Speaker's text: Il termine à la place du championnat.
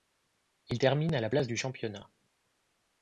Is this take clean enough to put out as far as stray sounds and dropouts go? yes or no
yes